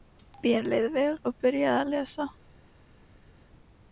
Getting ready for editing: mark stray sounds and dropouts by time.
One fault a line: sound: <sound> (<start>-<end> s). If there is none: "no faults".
no faults